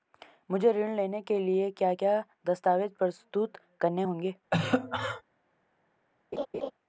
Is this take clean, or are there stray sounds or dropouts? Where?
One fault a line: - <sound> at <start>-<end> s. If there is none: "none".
- cough at 4.5-5.2 s
- laugh at 6.3-6.7 s